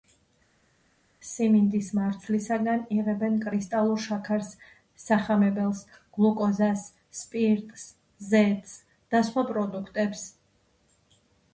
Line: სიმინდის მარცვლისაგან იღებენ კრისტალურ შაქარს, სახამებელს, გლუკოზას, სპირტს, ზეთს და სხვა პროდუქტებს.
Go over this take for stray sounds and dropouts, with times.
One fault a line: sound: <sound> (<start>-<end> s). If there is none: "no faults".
no faults